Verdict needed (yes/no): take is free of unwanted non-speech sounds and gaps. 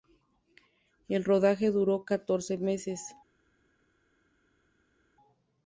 yes